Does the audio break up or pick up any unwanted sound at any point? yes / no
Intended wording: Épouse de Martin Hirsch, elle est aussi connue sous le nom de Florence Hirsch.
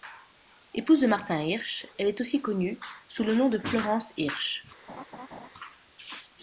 yes